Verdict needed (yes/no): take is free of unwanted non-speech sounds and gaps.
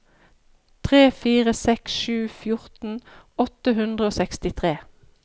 yes